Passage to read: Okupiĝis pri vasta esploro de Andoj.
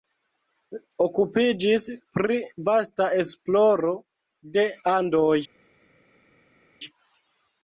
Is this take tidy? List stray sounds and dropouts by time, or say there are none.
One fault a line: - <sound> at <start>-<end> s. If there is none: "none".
none